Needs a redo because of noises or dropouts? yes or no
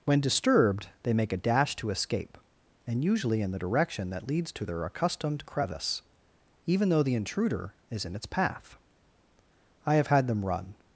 no